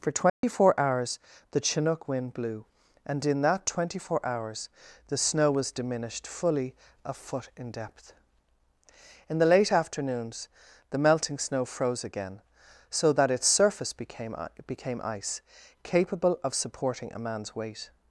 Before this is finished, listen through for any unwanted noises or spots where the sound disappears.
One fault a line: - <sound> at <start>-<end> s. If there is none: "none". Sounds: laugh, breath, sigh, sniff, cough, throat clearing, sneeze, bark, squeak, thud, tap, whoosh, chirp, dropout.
- dropout at 0.3-0.4 s